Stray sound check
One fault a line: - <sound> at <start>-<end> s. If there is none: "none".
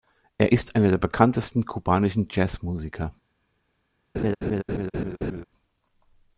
- laugh at 4.1-5.4 s